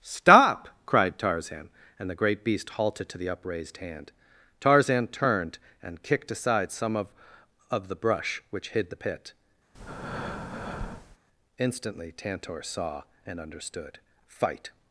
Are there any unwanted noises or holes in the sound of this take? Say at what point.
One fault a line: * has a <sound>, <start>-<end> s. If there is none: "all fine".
* has a breath, 9.7-11.2 s